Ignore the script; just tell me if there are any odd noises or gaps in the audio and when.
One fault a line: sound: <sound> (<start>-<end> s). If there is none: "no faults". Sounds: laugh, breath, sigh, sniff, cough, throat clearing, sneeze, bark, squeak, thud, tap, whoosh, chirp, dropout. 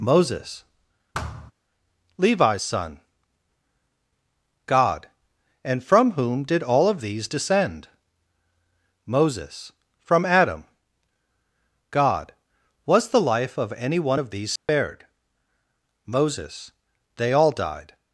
sound: thud (1.1-1.5 s)
sound: dropout (14.6-14.7 s)